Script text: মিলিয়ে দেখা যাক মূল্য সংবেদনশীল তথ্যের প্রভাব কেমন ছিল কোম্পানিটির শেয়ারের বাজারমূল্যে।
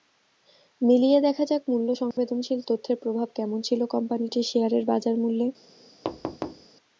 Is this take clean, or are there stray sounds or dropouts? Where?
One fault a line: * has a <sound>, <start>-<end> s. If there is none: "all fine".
* has a dropout, 2.1-2.2 s
* has a thud, 6.0-6.7 s